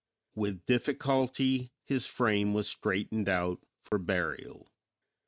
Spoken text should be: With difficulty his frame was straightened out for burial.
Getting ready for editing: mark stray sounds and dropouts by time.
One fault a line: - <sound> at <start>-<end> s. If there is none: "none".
- dropout at 3.9-3.9 s